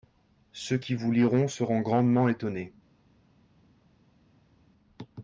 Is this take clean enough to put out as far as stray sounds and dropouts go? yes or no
yes